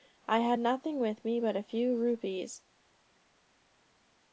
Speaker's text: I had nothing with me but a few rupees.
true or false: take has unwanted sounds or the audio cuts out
false